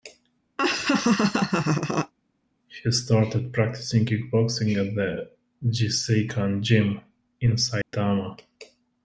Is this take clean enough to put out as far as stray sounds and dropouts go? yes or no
no